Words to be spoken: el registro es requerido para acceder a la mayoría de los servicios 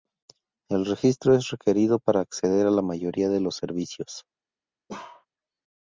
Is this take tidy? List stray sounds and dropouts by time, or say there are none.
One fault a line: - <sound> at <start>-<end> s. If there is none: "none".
- bark at 4.9-5.3 s